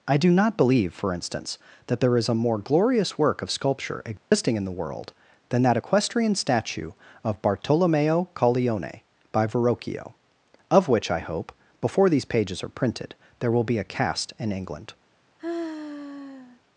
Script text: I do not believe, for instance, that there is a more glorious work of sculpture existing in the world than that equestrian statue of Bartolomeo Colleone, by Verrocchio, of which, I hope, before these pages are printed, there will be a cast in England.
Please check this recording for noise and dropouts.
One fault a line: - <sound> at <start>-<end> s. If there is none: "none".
- dropout at 4.2-4.3 s
- sigh at 15.4-16.6 s